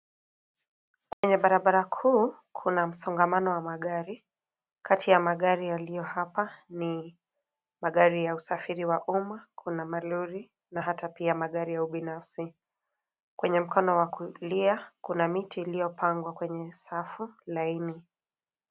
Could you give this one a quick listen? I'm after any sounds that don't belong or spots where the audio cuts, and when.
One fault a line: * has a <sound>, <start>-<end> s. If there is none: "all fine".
* has a dropout, 1.1-1.2 s